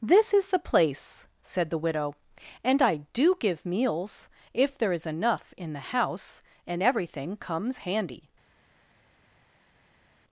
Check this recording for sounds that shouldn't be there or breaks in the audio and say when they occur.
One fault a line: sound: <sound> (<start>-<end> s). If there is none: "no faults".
no faults